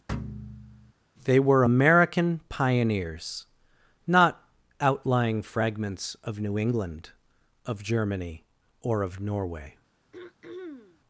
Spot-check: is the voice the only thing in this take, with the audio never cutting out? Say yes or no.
no